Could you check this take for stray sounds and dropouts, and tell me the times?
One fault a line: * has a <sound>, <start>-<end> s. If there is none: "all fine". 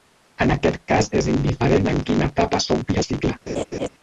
* has a laugh, 3.5-3.9 s